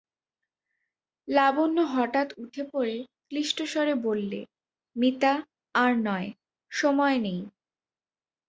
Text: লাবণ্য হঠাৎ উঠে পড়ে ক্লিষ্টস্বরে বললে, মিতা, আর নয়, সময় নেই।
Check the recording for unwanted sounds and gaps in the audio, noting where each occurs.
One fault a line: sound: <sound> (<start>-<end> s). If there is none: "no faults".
no faults